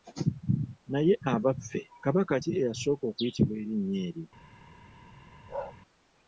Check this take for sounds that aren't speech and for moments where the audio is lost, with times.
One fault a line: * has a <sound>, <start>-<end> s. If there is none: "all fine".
* has a bark, 5.5-5.8 s